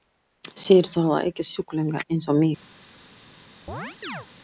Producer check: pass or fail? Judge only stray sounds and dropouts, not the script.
fail